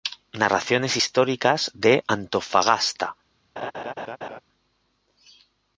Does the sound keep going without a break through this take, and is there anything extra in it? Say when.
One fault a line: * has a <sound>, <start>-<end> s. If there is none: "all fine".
* has a laugh, 3.6-4.4 s